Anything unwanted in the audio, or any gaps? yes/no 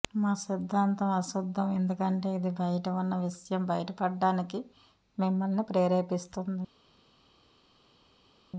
no